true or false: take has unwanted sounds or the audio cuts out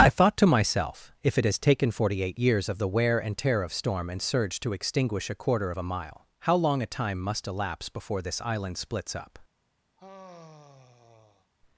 true